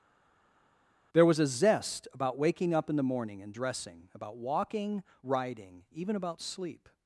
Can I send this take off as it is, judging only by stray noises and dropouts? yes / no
yes